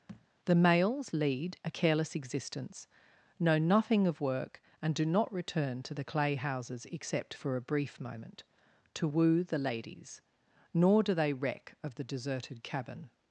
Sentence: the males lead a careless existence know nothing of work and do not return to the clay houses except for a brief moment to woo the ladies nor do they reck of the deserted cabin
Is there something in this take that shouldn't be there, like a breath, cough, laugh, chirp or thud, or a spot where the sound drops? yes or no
yes